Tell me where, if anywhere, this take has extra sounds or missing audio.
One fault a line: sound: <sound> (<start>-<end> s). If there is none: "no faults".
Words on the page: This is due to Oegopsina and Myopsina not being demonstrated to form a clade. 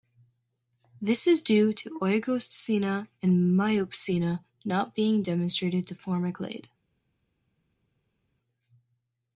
no faults